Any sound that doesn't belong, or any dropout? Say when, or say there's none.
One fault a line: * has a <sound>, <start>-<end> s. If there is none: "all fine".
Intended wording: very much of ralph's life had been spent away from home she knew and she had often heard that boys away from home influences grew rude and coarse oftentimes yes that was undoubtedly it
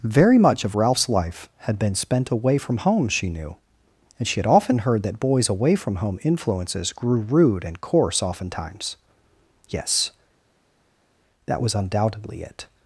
all fine